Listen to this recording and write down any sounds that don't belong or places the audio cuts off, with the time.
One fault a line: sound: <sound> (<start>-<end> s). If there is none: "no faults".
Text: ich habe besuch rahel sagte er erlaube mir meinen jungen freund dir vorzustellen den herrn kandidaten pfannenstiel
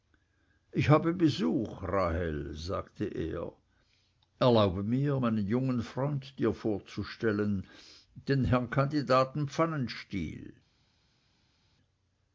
no faults